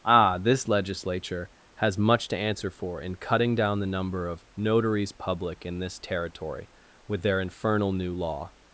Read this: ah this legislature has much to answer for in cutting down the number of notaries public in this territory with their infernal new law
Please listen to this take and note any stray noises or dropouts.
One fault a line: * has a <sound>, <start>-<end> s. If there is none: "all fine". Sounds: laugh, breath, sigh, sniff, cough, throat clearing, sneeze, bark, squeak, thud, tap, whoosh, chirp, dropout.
all fine